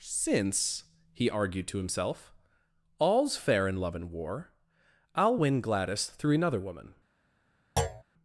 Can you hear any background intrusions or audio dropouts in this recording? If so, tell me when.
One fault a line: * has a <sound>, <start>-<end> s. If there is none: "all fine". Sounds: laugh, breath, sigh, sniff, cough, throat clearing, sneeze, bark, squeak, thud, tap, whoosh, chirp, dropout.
* has a thud, 7.8-8.0 s